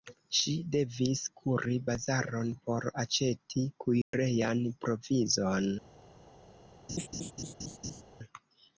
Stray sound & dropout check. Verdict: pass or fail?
fail